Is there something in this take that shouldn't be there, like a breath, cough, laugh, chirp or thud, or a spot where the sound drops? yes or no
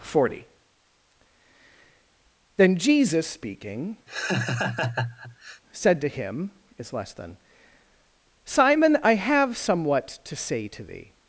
yes